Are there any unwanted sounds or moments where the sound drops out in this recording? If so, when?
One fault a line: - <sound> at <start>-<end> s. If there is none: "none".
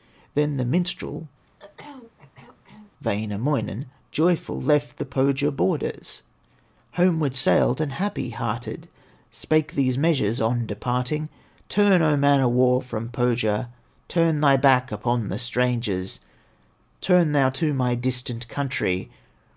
- throat clearing at 1.4-2.9 s